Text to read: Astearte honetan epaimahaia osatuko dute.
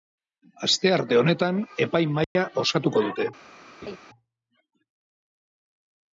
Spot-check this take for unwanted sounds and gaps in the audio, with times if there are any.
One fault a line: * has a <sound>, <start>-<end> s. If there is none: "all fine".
* has a dropout, 2.2-2.4 s
* has a laugh, 3.8-4.0 s